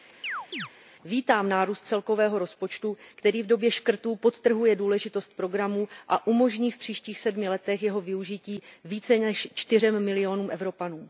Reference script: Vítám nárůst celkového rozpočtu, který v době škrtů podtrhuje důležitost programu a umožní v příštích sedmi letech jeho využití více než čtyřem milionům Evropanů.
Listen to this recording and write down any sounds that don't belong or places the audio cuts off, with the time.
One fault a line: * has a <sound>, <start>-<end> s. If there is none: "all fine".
* has a chirp, 0.2-0.7 s